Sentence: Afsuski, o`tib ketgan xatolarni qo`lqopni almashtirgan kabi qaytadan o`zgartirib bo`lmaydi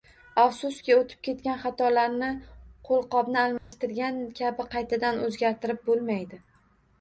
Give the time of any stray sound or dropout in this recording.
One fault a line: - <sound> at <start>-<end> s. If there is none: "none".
- dropout at 3.6-3.7 s